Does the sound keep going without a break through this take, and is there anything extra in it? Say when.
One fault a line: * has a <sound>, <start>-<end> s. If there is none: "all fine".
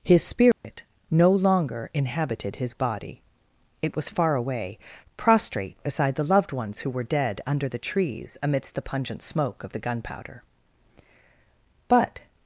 * has a dropout, 0.5-0.6 s